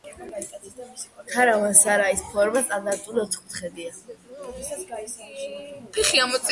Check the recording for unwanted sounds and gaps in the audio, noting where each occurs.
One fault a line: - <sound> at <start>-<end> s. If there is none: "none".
none